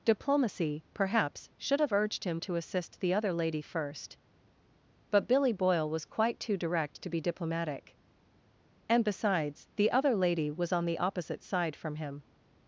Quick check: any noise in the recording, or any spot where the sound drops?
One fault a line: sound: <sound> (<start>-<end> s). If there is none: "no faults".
no faults